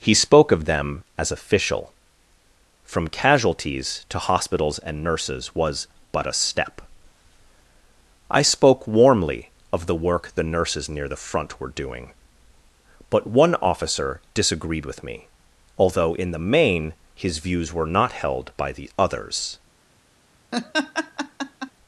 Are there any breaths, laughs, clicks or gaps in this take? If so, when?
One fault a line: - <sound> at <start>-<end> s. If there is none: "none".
- laugh at 20.5-21.7 s